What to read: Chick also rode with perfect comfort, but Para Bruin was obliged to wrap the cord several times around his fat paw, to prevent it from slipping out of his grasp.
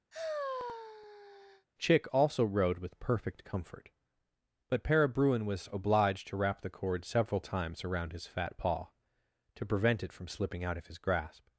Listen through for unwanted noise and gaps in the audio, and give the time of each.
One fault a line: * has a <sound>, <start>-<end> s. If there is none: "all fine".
* has a sigh, 0.1-1.7 s